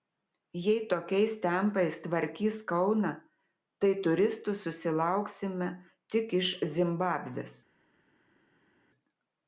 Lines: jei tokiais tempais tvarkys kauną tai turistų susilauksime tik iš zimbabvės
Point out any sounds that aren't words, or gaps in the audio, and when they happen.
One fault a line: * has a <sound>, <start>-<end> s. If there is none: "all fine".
all fine